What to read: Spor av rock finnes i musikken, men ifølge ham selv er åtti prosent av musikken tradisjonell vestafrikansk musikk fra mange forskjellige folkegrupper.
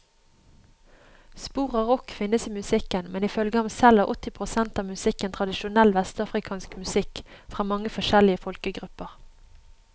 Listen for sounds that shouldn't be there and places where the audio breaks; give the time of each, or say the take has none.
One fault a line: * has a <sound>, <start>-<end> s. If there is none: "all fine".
all fine